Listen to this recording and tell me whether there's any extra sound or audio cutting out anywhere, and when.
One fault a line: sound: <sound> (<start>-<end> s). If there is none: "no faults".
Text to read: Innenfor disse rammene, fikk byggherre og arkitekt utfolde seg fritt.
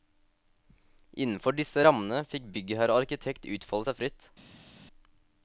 no faults